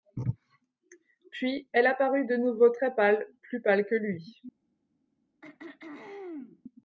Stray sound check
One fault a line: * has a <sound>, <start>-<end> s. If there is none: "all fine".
* has a throat clearing, 5.4-6.6 s